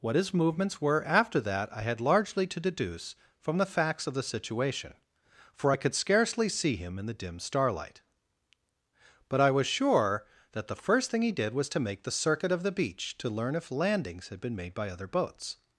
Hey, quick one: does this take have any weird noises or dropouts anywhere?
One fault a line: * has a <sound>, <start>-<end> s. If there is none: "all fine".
all fine